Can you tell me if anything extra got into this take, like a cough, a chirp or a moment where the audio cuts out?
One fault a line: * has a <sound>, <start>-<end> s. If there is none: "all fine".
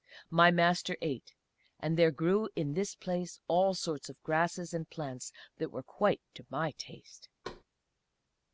* has a thud, 7.4-7.6 s